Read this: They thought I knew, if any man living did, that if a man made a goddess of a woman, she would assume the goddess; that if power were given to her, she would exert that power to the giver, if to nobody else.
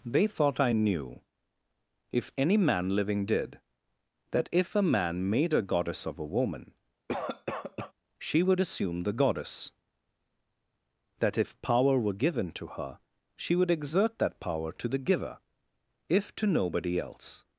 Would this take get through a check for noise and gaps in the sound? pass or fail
fail